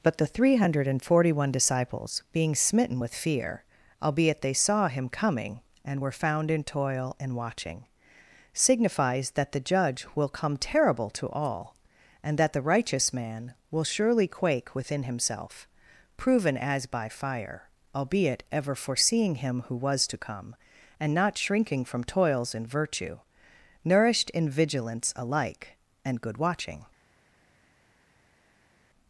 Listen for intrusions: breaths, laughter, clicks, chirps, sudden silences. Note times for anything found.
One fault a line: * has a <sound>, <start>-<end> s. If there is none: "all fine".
all fine